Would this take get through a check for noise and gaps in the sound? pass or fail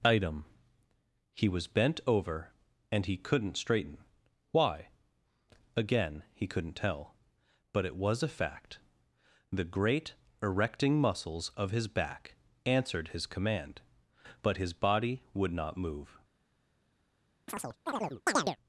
fail